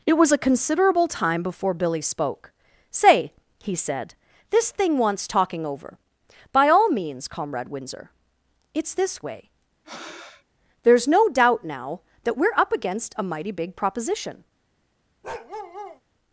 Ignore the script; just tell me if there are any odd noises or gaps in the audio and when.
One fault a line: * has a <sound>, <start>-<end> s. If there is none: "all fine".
* has a breath, 9.8-10.4 s
* has a bark, 15.2-16.0 s